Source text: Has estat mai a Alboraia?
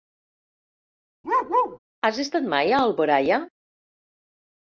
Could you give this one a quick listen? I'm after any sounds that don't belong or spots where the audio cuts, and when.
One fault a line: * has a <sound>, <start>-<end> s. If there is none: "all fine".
* has a bark, 1.2-1.8 s